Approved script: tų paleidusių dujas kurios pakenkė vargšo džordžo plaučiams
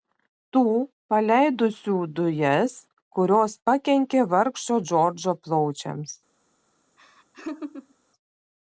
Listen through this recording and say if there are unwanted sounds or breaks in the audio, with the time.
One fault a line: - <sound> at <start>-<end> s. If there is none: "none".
- laugh at 7.0-8.0 s